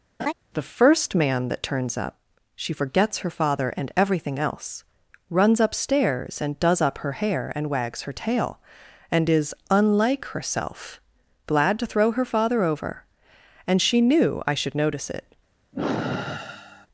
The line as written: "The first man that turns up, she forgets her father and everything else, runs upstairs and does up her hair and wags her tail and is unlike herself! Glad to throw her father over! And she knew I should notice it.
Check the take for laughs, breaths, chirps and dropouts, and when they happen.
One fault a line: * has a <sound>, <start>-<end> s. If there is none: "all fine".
* has a laugh, 0.2-0.3 s
* has a sigh, 15.7-16.9 s